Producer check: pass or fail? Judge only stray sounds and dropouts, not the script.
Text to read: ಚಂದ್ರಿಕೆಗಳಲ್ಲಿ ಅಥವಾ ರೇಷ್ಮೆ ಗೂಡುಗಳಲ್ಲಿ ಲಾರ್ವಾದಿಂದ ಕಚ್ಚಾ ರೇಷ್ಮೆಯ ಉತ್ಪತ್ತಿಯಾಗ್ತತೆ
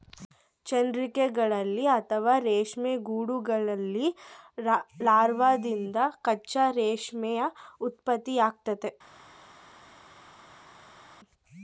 pass